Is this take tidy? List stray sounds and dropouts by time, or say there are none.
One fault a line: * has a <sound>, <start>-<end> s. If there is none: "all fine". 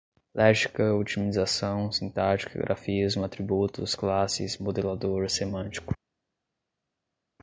all fine